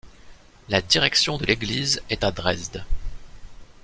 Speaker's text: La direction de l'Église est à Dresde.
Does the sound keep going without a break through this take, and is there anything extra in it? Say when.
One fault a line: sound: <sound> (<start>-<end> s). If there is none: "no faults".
no faults